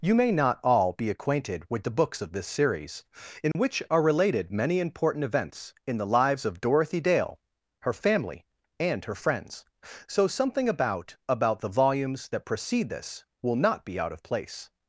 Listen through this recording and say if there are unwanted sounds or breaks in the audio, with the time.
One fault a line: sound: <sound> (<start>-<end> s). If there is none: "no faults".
sound: dropout (3.5-3.5 s)